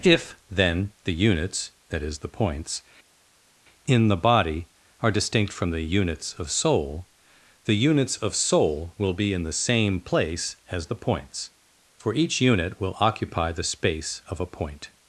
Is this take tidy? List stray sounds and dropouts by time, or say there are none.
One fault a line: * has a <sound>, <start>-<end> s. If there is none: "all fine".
all fine